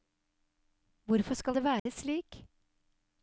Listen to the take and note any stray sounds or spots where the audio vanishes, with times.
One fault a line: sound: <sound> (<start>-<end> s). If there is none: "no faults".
sound: dropout (1.8-1.9 s)